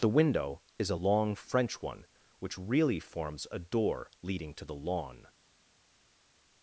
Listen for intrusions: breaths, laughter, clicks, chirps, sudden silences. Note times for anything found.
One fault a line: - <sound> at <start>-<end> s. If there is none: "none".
none